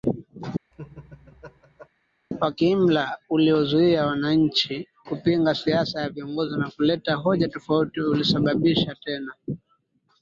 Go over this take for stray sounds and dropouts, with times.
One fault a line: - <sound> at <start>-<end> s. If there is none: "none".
- laugh at 0.7-1.9 s